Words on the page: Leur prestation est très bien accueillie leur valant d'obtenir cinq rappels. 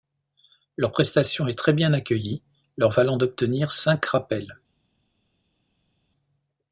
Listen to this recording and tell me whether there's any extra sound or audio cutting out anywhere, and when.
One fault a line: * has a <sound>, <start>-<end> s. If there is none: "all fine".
all fine